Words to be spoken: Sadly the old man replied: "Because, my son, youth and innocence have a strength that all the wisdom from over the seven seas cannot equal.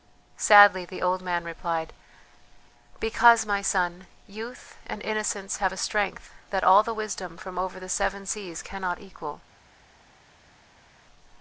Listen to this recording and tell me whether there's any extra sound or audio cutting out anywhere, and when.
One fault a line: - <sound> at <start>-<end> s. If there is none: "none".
none